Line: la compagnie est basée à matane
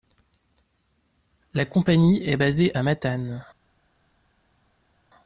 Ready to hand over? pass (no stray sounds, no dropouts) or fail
pass